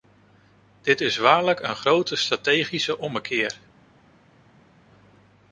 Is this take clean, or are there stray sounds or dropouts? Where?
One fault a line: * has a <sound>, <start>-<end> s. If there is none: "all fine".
all fine